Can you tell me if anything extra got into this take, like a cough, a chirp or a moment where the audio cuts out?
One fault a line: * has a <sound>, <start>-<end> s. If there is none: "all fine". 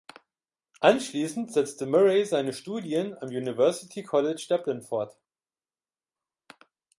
all fine